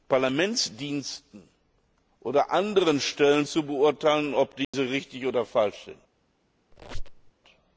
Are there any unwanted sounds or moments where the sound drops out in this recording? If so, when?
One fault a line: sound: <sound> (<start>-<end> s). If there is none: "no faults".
sound: dropout (4.6-4.7 s)
sound: squeak (6.7-7.3 s)